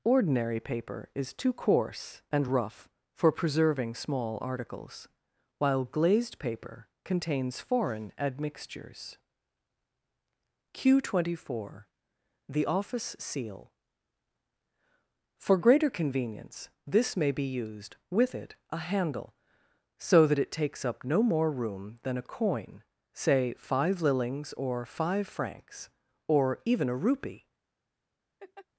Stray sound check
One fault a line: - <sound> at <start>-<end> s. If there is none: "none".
- laugh at 28.4-28.7 s